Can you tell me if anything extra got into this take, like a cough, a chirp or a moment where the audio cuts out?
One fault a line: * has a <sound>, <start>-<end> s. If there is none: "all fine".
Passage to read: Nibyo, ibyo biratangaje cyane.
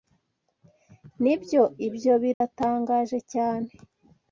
* has a dropout, 2.3-2.4 s